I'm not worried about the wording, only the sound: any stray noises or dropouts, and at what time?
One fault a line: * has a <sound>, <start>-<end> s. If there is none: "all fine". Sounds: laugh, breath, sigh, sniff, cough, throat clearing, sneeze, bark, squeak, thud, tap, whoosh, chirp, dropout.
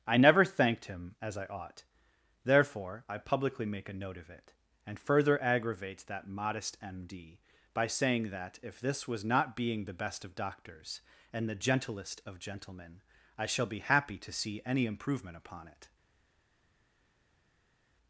all fine